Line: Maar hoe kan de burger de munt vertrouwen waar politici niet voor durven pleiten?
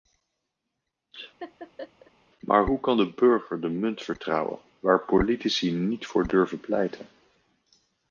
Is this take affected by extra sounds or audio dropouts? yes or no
yes